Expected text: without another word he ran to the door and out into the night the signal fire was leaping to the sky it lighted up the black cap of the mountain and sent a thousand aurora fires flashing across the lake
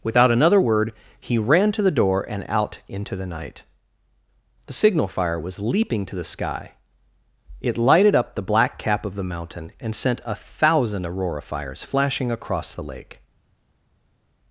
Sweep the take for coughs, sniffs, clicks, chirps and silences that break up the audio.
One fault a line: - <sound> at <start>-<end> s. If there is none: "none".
none